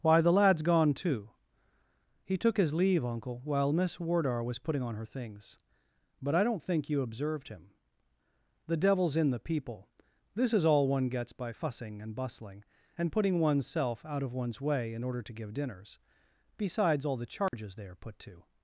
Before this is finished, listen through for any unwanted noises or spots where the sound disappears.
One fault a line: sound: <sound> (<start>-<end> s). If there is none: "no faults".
sound: dropout (17.5-17.5 s)